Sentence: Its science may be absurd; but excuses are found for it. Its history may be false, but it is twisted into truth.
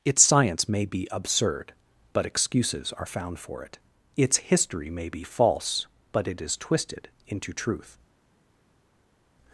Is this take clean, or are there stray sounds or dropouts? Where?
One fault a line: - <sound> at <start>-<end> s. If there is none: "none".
none